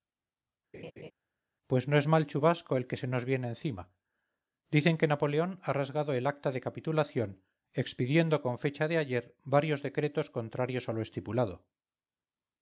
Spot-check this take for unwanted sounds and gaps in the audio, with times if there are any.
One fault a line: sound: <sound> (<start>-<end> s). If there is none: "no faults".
sound: laugh (0.7-1.1 s)